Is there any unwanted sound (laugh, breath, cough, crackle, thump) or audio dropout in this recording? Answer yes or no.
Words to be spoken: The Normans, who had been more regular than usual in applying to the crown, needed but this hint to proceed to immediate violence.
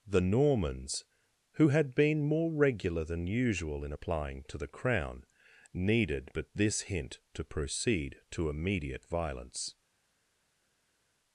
no